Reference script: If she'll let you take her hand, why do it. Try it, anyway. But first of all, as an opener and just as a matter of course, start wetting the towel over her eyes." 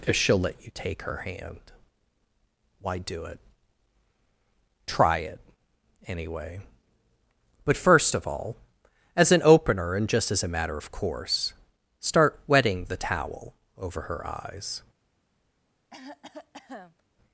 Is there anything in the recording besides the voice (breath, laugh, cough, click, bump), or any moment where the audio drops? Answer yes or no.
yes